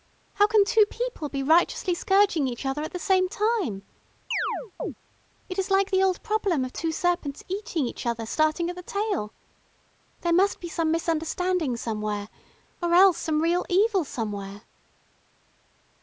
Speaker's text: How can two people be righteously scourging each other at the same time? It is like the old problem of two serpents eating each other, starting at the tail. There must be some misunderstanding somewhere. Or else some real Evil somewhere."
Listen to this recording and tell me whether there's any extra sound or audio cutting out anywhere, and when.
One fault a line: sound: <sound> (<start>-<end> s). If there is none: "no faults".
sound: chirp (4.3-4.9 s)